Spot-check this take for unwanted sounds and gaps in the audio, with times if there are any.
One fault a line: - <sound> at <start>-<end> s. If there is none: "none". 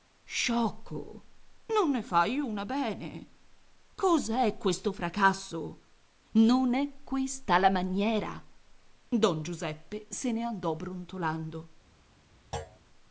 - thud at 12.5-12.8 s